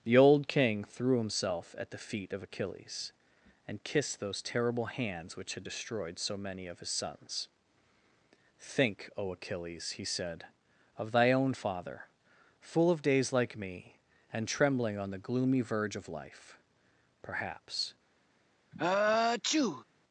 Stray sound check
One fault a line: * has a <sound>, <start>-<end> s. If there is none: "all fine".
* has a sneeze, 18.7-19.8 s